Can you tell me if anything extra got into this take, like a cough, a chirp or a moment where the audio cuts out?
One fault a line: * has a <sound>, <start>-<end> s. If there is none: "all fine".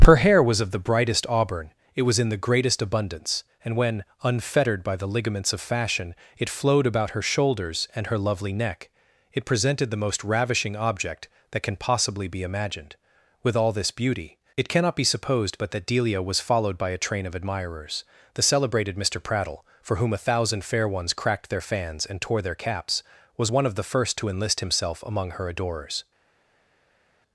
all fine